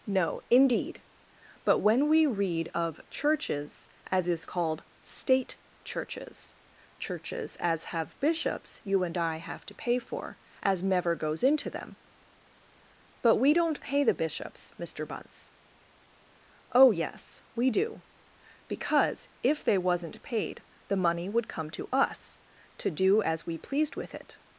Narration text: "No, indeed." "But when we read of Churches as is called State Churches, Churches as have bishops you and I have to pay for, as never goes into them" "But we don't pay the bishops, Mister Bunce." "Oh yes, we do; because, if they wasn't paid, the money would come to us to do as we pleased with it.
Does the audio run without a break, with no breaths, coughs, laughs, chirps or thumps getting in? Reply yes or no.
yes